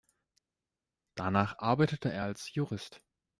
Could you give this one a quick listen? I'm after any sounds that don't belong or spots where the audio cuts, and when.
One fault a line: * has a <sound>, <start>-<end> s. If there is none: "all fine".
all fine